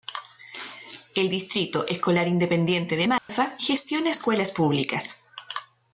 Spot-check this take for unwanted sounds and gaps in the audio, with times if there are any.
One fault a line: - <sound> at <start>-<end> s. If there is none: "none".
- dropout at 3.2-3.3 s